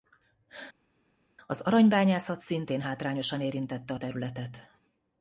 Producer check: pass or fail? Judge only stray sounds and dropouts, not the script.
pass